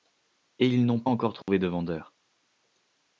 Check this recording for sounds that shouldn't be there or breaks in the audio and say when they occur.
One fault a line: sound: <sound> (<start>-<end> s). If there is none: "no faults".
sound: dropout (1.4-1.5 s)